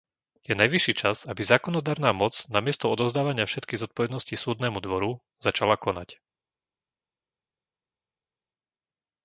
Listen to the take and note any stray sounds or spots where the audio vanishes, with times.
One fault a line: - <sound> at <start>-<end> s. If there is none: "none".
none